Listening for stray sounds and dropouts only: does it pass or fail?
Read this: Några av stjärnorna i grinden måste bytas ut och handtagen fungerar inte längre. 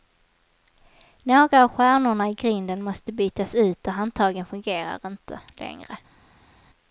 pass